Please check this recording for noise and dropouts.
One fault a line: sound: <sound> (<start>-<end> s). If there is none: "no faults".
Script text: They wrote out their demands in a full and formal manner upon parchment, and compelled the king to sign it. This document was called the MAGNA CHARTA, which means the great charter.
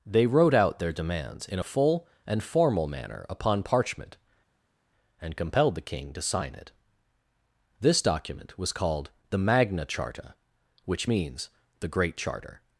no faults